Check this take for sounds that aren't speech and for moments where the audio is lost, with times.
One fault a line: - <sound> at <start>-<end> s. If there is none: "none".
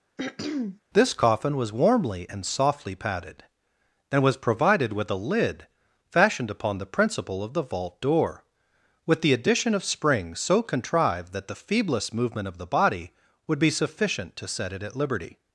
- throat clearing at 0.2-0.8 s